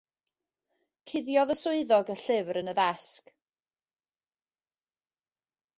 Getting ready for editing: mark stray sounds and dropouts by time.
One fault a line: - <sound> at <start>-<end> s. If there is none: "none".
none